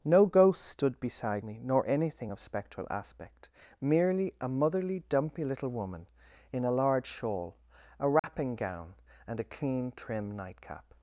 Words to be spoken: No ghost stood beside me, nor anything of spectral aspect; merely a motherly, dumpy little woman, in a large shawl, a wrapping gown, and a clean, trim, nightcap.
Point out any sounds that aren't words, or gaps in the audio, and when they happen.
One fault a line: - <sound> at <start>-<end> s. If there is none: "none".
- dropout at 8.2-8.2 s